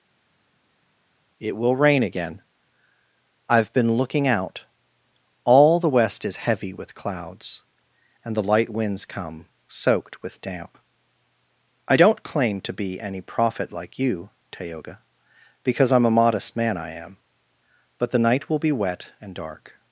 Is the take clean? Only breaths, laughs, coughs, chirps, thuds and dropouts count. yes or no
yes